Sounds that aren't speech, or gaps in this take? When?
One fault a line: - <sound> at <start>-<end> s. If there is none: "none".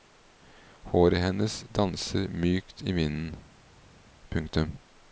none